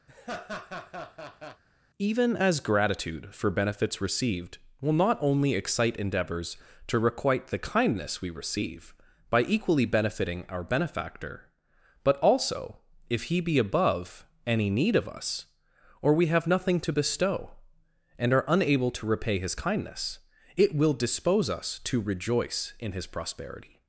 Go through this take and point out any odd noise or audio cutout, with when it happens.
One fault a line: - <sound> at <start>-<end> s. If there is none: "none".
- laugh at 0.1-1.6 s